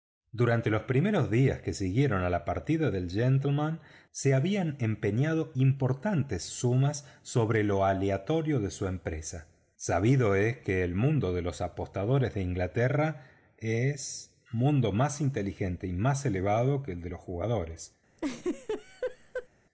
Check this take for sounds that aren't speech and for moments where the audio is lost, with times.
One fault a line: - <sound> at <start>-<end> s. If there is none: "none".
- laugh at 18.2-19.5 s